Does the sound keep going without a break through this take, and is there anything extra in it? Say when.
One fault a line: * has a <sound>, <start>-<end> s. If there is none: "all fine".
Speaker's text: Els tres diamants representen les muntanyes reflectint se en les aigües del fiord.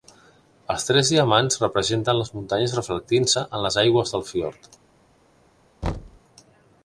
* has a thud, 5.8-6.2 s